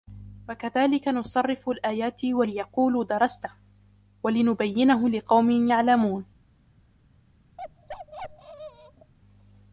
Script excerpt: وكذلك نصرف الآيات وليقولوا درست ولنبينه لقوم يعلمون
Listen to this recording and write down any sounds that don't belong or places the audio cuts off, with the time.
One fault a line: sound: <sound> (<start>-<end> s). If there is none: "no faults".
sound: bark (7.6-9.1 s)